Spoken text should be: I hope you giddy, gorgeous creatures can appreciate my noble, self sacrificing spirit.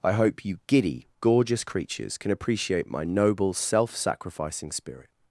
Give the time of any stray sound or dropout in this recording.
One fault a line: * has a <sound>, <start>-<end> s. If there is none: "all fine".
all fine